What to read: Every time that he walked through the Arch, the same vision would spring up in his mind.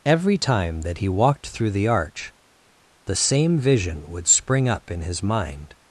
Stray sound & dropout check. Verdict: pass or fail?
pass